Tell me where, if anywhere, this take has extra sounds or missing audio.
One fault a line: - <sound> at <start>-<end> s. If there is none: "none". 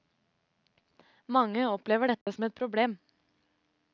- dropout at 2.2-2.3 s